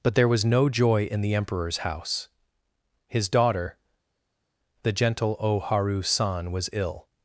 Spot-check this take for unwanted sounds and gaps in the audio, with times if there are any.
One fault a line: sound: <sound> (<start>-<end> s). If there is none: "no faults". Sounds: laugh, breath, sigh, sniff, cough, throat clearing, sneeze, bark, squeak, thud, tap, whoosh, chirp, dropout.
no faults